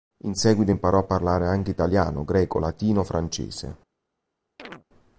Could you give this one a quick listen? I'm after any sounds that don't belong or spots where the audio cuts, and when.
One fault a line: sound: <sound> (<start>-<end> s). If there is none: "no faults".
sound: chirp (4.6-4.8 s)